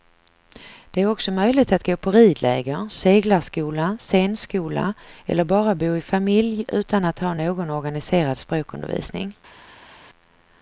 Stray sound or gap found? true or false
false